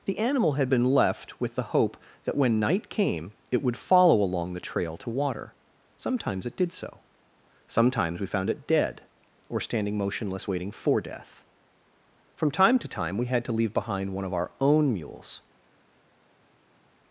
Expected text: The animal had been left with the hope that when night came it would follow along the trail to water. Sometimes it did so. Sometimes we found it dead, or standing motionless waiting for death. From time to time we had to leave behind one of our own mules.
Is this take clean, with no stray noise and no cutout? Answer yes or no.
yes